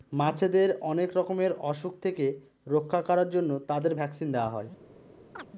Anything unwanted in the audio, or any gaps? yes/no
yes